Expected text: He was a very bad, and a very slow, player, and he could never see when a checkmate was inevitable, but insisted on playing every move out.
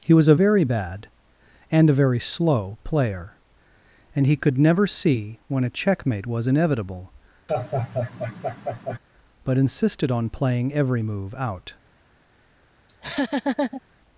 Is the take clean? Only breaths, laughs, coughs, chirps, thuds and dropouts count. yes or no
no